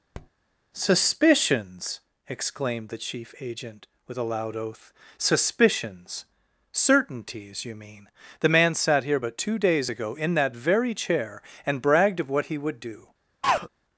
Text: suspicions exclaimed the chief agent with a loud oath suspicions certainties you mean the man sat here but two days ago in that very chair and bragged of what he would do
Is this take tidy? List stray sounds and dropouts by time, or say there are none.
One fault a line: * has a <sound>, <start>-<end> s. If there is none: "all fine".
* has a tap, 0.1-0.3 s
* has a throat clearing, 13.4-13.7 s